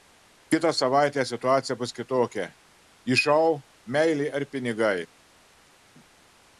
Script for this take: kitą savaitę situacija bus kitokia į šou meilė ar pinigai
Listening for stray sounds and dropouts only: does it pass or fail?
pass